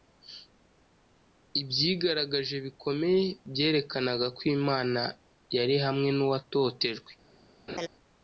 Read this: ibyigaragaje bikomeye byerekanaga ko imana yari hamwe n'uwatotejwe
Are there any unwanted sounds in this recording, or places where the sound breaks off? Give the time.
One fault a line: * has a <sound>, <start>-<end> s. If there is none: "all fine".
* has a laugh, 7.7-7.9 s